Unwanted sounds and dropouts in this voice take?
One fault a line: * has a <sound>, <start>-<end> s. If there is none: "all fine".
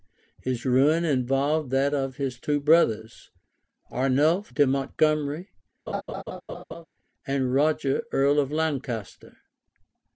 * has a laugh, 5.9-6.9 s